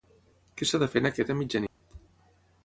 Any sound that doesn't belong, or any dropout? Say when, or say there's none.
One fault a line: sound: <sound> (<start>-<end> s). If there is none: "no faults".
sound: dropout (1.7-1.8 s)